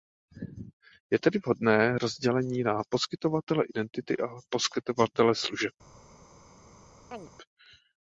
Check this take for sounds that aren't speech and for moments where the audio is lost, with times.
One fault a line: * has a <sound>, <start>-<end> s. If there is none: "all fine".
* has a chirp, 7.1-7.3 s